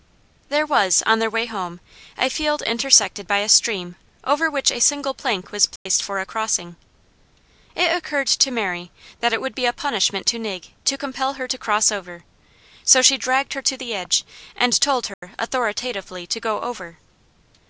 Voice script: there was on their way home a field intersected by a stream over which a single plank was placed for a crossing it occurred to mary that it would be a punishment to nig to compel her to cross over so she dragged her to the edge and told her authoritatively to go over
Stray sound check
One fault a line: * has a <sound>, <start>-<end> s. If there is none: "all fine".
* has a dropout, 5.8-5.9 s
* has a dropout, 15.1-15.2 s